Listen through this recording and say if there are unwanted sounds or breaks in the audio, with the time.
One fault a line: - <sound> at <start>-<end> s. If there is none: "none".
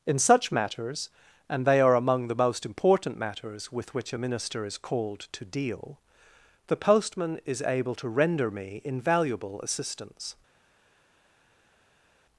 none